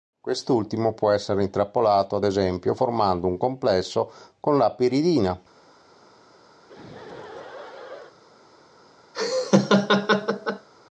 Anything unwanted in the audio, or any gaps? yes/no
yes